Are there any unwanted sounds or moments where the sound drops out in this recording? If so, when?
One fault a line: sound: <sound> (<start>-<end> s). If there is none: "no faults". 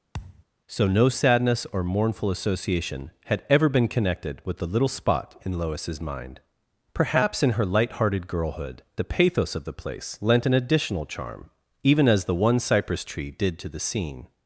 sound: thud (0.1-0.4 s)